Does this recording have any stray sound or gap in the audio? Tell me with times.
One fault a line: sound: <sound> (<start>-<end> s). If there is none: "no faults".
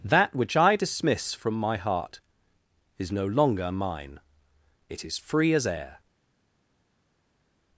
no faults